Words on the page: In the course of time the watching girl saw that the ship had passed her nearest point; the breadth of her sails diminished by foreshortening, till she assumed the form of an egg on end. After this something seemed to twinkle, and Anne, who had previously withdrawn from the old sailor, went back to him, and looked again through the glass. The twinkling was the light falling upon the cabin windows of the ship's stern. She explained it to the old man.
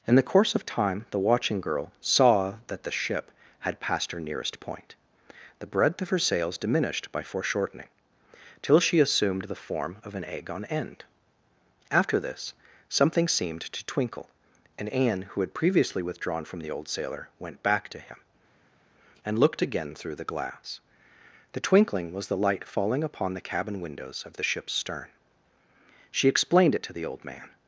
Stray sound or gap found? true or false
false